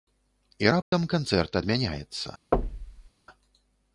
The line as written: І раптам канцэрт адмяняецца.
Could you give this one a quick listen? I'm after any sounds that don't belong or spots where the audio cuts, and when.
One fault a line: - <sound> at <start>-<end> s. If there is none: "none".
- dropout at 0.8-0.9 s
- thud at 2.5-3.1 s